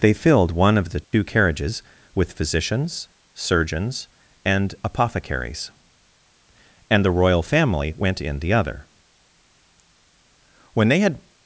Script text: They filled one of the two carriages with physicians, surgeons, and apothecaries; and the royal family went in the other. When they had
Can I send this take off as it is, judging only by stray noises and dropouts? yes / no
no